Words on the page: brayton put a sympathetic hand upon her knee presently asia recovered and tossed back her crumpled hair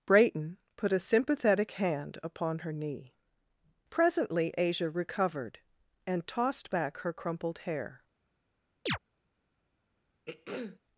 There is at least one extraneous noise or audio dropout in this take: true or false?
true